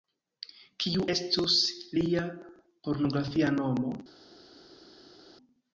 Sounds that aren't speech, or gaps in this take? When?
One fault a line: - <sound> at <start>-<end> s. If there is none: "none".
none